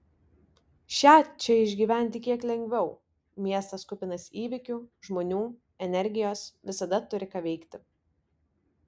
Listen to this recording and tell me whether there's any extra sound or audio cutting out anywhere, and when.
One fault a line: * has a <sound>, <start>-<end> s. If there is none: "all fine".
all fine